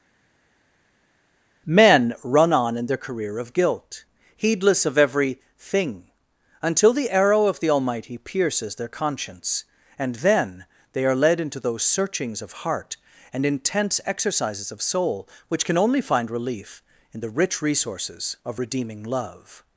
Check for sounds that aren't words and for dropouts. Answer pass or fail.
pass